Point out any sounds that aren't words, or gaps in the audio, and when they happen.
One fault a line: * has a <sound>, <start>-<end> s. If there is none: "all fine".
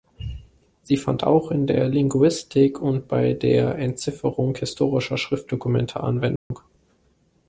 * has a dropout, 6.4-6.5 s